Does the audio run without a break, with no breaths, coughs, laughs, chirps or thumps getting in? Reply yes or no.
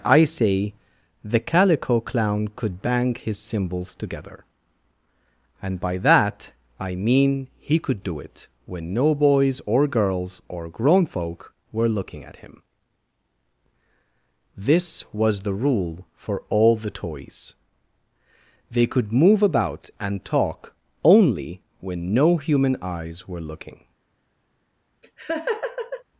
no